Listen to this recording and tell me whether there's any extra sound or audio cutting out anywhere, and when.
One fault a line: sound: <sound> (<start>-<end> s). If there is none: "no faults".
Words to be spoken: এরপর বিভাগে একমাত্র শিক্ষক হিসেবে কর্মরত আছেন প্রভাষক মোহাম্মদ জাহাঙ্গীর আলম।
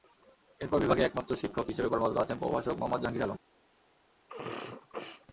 sound: sneeze (4.3-5.3 s)